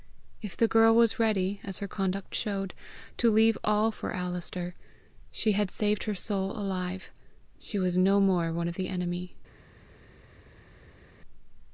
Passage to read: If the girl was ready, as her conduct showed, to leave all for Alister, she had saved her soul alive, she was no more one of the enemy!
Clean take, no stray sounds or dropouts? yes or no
yes